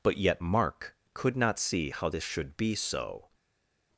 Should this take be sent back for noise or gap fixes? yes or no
no